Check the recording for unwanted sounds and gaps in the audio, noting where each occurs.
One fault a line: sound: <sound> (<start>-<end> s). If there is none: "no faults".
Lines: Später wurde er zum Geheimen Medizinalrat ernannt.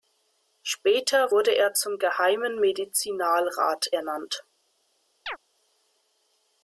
sound: chirp (5.3-5.4 s)